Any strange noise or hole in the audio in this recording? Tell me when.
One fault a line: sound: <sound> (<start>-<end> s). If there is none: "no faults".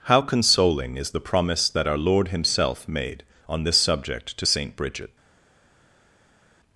no faults